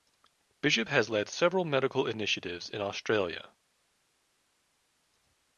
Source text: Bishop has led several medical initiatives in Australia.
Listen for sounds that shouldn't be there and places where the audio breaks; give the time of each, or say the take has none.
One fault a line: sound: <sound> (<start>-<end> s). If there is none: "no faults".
no faults